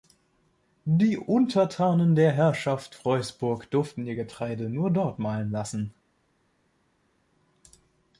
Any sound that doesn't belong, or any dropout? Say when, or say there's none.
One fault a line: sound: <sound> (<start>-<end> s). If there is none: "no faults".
no faults